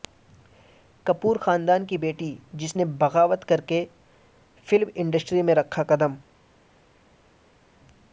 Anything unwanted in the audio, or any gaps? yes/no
no